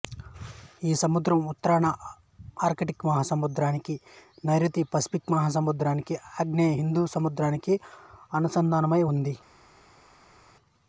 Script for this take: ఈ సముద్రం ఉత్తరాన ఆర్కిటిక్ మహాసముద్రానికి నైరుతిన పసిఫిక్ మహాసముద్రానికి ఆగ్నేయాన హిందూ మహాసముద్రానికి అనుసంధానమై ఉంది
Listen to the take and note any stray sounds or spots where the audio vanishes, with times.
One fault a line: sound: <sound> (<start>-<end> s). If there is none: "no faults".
no faults